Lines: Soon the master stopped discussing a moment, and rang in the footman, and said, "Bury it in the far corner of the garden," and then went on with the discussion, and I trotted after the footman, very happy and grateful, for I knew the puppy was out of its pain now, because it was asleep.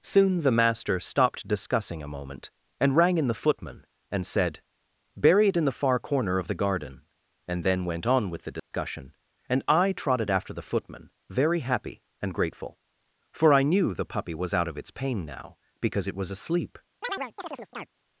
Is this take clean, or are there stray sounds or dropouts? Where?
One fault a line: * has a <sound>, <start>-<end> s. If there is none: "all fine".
* has a dropout, 8.6-8.7 s
* has a chirp, 17.0-17.9 s